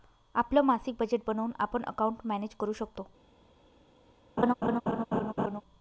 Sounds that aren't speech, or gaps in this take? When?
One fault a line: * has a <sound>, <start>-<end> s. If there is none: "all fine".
* has a laugh, 4.4-5.6 s